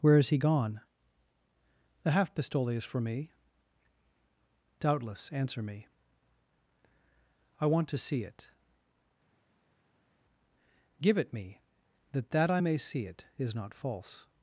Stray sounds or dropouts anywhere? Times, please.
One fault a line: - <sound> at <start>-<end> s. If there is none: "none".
none